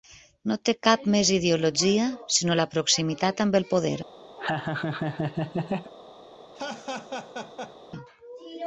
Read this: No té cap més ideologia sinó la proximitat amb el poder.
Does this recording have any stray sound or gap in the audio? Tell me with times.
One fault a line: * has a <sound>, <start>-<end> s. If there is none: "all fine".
* has a laugh, 4.4-5.9 s
* has a laugh, 6.5-7.8 s